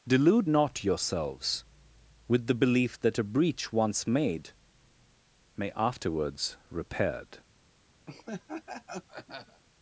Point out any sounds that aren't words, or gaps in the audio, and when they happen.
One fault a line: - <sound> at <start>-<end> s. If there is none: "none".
- laugh at 8.1-9.6 s